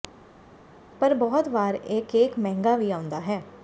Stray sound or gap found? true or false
false